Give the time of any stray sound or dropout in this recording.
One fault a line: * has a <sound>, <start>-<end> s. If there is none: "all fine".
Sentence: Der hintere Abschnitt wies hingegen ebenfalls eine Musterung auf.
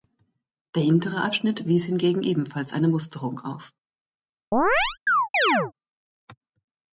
* has a chirp, 4.5-5.7 s